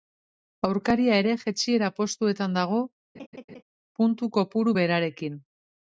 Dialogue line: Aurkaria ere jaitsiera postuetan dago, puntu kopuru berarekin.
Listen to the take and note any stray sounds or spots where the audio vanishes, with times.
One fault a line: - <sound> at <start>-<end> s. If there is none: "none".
- laugh at 3.1-3.6 s